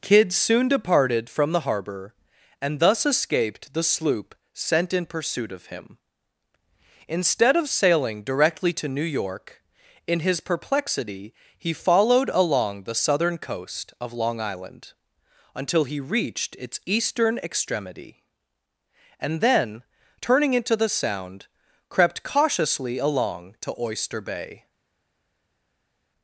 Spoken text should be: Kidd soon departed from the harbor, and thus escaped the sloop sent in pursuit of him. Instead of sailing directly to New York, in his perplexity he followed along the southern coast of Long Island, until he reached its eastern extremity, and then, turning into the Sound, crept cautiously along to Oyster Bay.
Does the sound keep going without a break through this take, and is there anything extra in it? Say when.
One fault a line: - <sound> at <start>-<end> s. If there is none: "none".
none